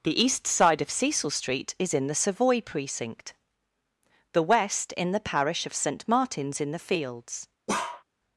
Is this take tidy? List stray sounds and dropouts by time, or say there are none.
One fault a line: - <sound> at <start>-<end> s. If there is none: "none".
- bark at 7.7-8.0 s